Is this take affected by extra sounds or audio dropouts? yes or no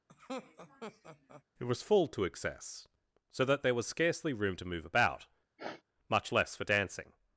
yes